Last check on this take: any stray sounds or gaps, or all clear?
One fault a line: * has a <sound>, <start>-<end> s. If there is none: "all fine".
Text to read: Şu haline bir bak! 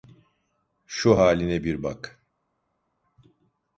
all fine